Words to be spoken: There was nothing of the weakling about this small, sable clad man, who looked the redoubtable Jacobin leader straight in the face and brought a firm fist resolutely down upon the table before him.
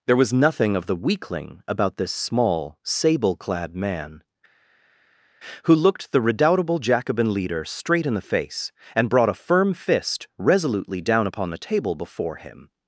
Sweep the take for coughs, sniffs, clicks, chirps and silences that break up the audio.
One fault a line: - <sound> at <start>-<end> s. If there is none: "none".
none